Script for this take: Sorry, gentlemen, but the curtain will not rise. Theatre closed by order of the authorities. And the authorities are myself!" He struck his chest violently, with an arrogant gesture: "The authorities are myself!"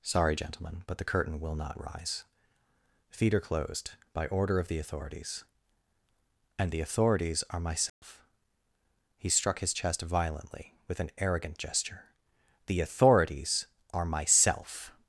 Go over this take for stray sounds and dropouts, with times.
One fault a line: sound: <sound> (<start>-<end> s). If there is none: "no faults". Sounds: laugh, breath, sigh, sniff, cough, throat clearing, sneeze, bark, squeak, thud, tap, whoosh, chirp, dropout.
sound: dropout (7.9-8.0 s)